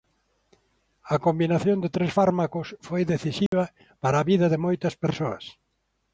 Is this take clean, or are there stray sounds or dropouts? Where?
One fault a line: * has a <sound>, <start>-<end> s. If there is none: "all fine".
* has a dropout, 3.5-3.5 s